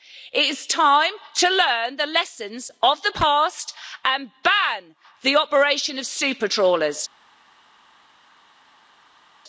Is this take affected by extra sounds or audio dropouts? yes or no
no